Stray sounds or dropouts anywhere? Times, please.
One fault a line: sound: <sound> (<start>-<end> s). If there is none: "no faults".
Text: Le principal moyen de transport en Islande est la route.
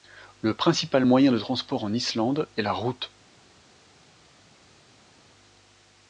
no faults